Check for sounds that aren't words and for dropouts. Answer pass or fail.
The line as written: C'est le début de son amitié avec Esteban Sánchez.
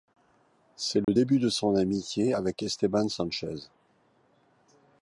fail